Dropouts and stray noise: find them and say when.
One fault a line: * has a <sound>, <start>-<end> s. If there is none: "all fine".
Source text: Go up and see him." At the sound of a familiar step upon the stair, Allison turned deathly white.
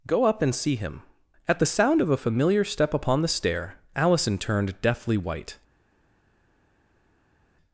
all fine